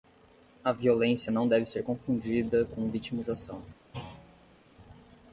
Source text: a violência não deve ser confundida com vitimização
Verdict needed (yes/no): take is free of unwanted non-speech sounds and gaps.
no